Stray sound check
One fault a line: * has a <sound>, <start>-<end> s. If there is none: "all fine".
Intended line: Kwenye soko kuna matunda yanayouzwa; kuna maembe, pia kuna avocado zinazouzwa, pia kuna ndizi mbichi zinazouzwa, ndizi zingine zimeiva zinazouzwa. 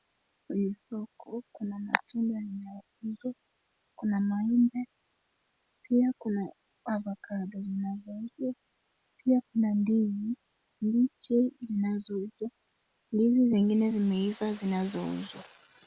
all fine